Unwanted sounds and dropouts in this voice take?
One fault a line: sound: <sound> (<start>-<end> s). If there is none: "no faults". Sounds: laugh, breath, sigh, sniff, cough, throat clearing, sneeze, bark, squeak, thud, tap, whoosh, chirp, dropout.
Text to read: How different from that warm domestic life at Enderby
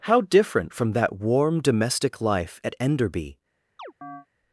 sound: chirp (3.8-4.3 s)